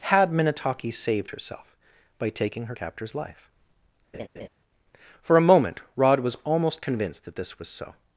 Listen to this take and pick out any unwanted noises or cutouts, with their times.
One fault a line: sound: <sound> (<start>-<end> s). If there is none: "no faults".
sound: laugh (4.1-4.5 s)